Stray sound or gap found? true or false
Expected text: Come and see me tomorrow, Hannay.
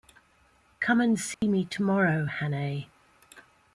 true